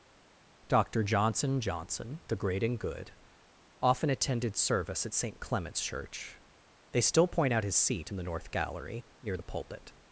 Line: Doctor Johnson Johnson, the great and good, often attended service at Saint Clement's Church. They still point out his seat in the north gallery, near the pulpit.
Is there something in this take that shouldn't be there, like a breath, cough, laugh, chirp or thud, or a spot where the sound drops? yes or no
no